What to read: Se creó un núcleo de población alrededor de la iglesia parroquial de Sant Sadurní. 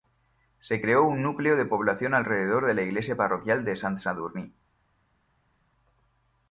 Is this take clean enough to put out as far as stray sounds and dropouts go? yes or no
yes